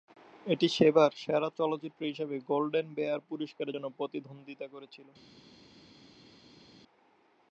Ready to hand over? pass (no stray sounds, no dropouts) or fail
pass